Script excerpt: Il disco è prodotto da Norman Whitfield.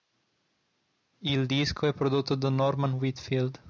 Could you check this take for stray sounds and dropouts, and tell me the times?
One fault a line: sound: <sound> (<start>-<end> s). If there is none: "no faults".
no faults